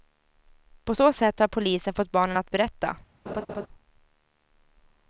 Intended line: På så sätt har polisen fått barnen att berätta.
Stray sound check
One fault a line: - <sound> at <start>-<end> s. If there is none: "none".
- laugh at 3.3-3.7 s